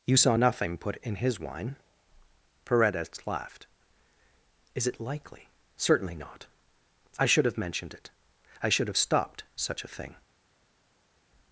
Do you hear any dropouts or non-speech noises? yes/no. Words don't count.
no